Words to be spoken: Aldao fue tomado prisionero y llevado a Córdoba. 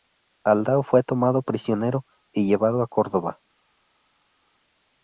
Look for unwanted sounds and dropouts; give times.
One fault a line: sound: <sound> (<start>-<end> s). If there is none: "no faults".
no faults